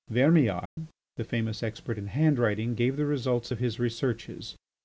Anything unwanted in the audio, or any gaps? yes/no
yes